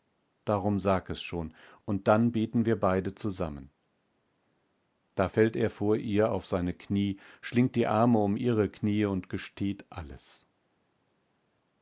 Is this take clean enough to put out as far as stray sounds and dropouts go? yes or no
yes